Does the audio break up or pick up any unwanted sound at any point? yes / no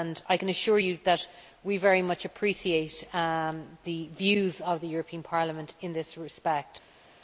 no